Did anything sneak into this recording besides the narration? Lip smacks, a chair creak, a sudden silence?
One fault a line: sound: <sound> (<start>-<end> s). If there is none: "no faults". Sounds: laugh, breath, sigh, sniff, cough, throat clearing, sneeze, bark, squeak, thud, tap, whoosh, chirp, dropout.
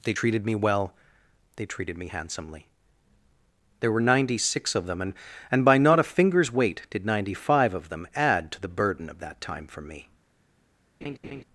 sound: laugh (11.0-11.4 s)